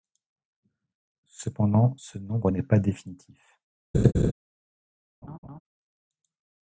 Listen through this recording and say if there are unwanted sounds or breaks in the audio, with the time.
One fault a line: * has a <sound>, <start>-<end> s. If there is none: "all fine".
* has a laugh, 3.9-4.3 s
* has a laugh, 5.2-5.6 s